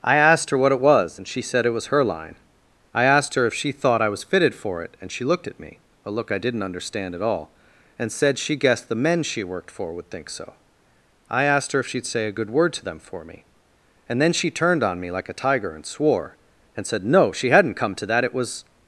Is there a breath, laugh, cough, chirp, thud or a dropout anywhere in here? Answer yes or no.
no